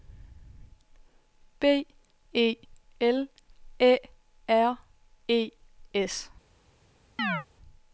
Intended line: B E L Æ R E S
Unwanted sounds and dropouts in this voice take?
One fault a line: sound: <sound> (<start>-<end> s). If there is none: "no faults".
sound: chirp (7.2-7.5 s)